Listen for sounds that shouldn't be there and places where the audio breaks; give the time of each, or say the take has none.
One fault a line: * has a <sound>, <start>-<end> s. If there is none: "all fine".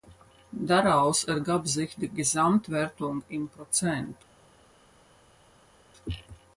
all fine